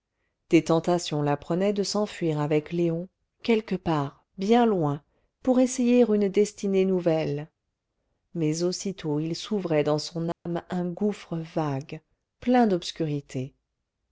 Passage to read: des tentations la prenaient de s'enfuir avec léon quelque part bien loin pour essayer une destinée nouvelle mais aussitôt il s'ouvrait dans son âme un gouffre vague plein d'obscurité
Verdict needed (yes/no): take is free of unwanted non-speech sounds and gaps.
no